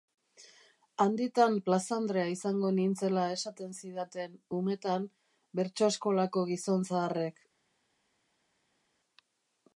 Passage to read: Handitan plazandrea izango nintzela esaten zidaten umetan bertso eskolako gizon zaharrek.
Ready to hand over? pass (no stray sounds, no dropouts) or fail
pass